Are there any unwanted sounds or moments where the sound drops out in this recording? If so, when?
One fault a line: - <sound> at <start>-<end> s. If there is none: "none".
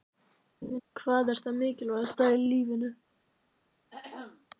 - laugh at 0.6-0.8 s
- throat clearing at 3.9-4.5 s